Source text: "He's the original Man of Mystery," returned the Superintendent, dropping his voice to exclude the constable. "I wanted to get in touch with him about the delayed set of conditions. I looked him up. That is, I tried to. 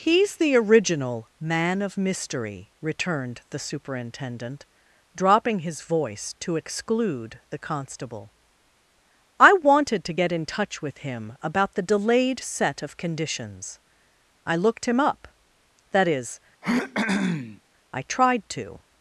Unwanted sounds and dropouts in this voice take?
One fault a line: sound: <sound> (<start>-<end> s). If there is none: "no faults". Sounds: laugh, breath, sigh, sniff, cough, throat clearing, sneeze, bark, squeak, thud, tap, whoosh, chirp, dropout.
sound: throat clearing (16.6-17.6 s)